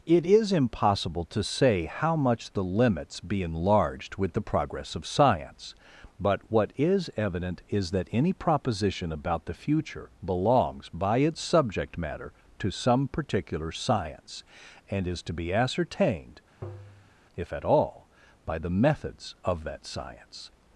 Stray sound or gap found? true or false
true